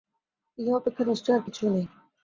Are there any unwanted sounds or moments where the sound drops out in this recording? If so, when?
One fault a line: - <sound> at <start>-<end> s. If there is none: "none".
none